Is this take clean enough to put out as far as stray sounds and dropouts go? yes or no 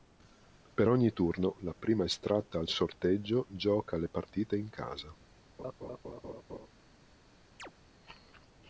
no